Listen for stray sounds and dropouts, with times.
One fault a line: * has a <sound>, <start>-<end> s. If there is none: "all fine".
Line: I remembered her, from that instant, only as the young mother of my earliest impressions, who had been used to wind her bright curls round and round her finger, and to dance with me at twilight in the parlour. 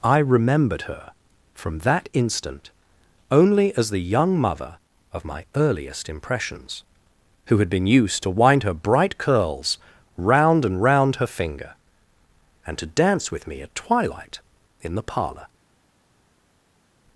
all fine